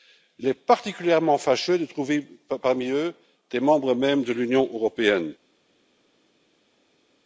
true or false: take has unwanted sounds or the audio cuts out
false